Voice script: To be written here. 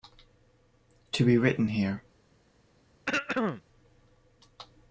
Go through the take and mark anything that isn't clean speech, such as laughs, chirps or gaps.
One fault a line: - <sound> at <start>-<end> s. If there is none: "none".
- throat clearing at 3.1-3.6 s